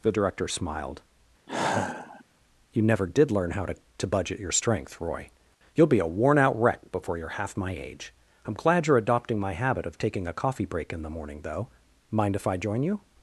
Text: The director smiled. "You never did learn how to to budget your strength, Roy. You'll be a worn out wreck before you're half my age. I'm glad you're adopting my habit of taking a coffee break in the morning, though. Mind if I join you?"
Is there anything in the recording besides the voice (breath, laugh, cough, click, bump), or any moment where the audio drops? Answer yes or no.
yes